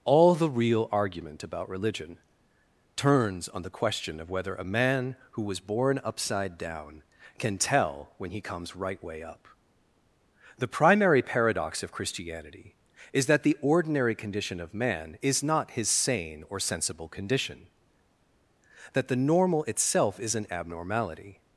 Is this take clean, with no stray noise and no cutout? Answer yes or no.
yes